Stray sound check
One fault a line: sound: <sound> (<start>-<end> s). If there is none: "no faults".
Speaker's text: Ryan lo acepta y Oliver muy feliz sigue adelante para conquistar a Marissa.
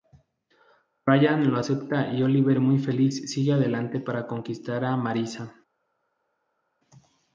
no faults